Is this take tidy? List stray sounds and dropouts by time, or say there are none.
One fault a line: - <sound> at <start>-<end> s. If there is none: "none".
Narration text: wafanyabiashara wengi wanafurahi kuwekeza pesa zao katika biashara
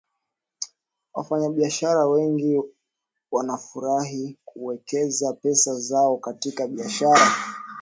none